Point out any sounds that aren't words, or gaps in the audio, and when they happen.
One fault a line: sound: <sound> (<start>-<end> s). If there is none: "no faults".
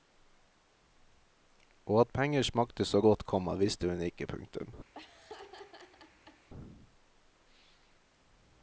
sound: laugh (4.9-6.5 s)